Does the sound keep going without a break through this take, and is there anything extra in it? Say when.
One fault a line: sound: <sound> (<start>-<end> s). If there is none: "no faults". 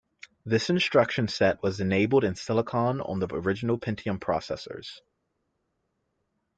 no faults